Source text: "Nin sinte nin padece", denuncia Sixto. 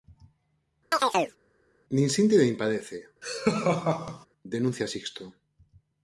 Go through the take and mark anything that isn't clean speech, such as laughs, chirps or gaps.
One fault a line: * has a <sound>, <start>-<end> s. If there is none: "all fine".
* has a chirp, 0.9-1.4 s
* has a laugh, 3.2-4.3 s